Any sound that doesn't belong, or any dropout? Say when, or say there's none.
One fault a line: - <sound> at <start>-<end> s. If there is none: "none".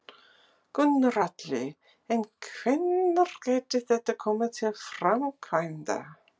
none